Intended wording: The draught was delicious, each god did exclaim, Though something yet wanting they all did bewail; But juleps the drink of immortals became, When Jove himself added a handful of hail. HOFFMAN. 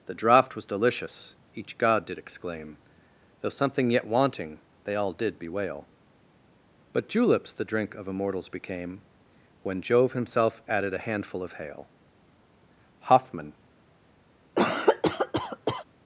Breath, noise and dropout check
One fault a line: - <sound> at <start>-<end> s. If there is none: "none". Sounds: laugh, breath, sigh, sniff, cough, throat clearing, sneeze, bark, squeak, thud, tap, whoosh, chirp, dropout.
- cough at 14.6-15.8 s